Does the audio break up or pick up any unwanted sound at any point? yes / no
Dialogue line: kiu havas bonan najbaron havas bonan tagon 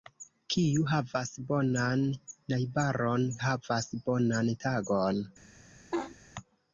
yes